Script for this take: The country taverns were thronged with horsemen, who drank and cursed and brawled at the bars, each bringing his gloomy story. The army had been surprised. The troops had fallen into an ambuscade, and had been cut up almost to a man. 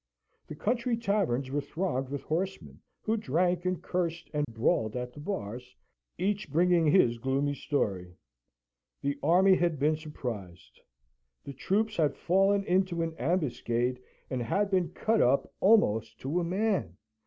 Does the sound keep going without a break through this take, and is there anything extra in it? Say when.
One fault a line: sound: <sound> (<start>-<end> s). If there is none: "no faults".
sound: dropout (4.4-4.5 s)